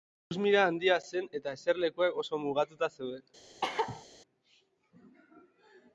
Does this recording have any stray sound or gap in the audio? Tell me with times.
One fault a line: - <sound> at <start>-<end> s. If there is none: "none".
- cough at 3.6-4.0 s